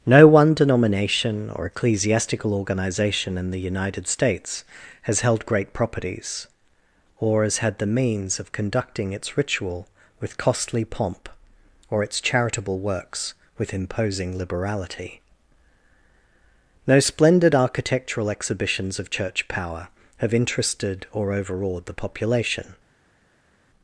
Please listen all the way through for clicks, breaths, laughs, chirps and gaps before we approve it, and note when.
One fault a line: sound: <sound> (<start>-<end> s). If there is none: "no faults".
no faults